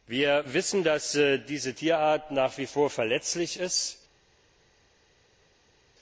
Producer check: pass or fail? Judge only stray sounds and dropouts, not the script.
pass